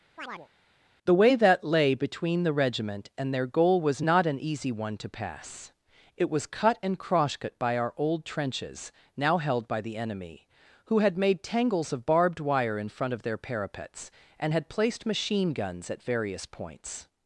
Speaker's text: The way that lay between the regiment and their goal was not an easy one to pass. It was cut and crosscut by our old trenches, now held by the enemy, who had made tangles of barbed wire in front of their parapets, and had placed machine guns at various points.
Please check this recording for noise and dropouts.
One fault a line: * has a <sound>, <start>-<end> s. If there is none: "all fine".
* has a chirp, 0.2-0.5 s